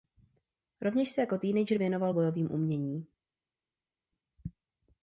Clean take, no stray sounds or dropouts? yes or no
yes